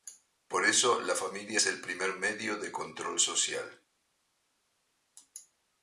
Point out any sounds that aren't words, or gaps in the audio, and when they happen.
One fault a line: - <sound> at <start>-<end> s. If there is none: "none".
none